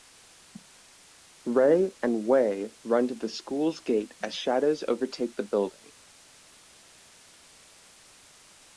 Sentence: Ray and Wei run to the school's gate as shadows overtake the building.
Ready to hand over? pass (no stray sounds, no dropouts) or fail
pass